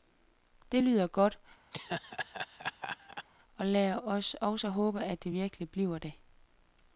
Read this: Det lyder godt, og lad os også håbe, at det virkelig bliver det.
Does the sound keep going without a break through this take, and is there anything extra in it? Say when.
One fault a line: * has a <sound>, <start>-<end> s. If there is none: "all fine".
* has a laugh, 1.7-3.3 s